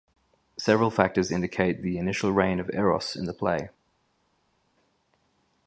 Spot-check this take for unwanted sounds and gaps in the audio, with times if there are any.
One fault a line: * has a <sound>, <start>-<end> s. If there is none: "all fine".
all fine